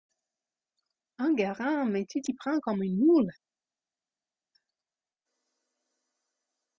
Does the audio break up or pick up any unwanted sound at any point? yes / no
no